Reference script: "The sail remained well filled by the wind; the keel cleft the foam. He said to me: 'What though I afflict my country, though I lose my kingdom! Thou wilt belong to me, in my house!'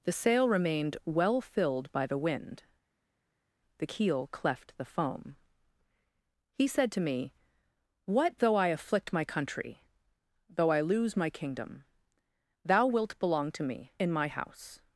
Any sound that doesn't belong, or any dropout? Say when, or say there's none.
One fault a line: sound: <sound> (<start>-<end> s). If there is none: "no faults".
no faults